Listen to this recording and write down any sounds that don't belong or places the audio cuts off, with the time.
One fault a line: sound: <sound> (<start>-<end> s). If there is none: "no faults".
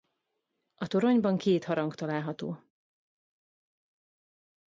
no faults